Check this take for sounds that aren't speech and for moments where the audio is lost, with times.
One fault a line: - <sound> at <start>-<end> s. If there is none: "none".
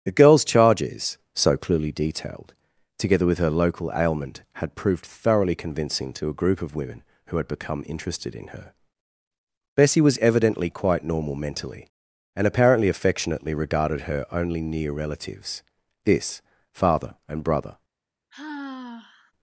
- sigh at 18.3-19.3 s